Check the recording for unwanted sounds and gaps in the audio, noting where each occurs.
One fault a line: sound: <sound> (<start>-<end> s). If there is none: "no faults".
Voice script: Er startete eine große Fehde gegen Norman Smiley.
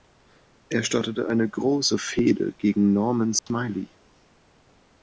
sound: dropout (3.4-3.5 s)